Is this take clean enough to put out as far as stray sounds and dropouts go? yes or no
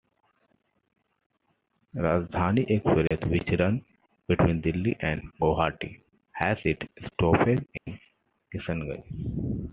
no